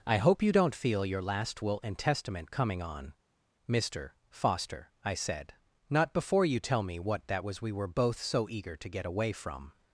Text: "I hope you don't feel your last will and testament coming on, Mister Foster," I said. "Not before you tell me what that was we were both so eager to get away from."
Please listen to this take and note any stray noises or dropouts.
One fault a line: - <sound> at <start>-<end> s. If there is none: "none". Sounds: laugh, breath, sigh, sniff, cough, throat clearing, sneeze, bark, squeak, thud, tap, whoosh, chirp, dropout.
none